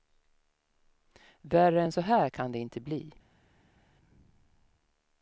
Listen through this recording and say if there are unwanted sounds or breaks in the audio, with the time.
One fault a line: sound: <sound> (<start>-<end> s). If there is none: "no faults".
no faults